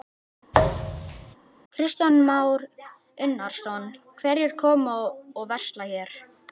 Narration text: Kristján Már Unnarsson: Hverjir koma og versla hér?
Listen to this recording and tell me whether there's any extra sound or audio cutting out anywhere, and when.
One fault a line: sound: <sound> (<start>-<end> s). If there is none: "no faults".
sound: thud (0.5-1.4 s)